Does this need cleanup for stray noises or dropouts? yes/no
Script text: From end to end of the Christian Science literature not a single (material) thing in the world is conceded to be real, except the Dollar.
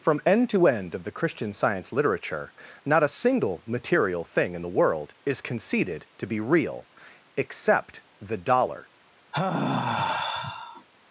yes